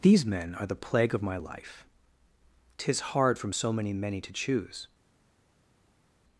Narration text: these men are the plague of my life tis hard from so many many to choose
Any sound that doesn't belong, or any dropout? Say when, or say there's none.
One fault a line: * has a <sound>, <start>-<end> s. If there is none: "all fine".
all fine